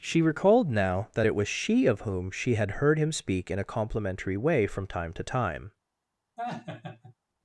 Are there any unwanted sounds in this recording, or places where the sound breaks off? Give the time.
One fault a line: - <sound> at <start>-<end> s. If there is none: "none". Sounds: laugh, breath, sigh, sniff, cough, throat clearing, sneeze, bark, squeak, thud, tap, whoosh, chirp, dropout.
- laugh at 6.4-7.1 s